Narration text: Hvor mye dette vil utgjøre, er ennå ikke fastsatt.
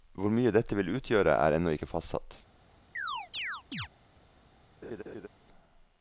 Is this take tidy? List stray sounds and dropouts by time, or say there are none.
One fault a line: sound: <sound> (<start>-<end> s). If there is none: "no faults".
sound: chirp (3.0-3.9 s)
sound: laugh (4.8-5.3 s)